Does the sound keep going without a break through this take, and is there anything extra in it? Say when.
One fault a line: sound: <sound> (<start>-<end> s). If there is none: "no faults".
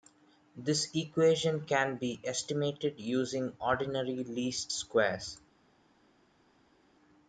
no faults